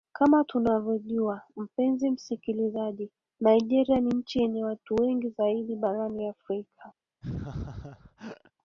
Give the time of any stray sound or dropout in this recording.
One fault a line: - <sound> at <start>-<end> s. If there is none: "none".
- laugh at 7.2-8.5 s